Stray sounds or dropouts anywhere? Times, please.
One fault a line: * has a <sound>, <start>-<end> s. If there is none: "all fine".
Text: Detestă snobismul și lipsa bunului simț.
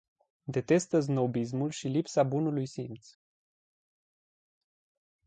all fine